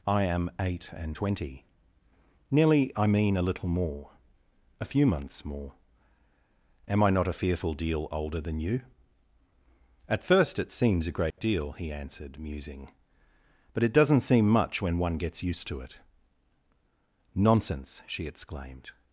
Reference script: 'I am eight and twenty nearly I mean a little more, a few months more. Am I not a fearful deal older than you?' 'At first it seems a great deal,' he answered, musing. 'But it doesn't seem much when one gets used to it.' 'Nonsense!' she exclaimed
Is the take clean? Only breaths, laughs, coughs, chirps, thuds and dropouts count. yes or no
no